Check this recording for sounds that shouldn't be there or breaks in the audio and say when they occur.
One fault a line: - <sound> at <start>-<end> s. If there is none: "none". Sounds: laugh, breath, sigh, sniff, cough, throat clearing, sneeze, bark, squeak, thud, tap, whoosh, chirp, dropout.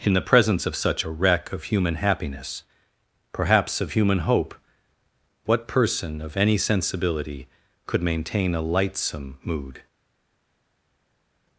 none